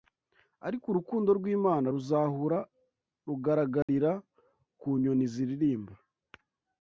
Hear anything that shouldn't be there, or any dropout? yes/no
yes